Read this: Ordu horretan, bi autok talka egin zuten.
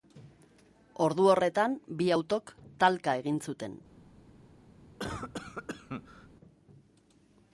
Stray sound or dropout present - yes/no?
yes